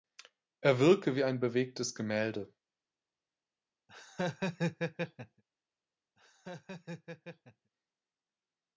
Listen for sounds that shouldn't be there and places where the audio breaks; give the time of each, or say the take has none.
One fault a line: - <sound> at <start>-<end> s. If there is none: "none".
- laugh at 3.9-5.4 s
- laugh at 6.2-7.7 s